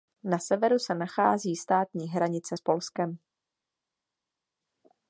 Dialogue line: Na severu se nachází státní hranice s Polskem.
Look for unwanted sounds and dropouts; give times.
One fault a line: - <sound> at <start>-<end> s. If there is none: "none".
none